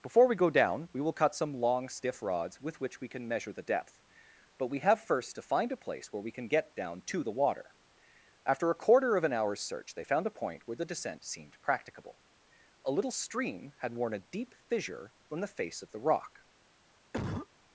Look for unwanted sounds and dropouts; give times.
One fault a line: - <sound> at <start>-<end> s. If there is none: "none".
- cough at 17.1-17.5 s